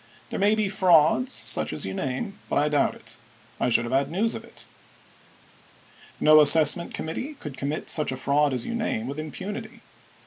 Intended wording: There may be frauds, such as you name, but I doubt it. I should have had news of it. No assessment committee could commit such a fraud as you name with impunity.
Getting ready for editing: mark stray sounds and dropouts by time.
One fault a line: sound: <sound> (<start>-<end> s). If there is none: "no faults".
no faults